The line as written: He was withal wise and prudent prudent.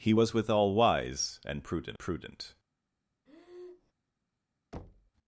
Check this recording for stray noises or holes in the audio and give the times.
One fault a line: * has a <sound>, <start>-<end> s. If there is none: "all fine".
* has a breath, 3.3-3.9 s
* has a thud, 4.7-5.1 s